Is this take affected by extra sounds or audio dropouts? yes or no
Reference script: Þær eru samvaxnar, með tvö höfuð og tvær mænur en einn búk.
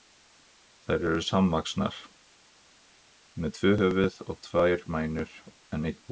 no